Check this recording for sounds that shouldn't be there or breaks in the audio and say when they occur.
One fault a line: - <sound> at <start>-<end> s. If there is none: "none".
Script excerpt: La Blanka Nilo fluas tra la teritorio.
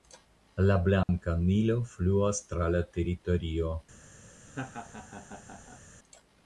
- dropout at 1.0-1.1 s
- laugh at 4.5-5.8 s